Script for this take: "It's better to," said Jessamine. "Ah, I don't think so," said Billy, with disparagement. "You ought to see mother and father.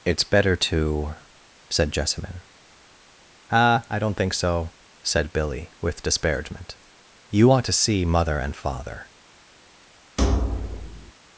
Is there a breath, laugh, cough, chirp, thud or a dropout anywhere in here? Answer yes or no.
yes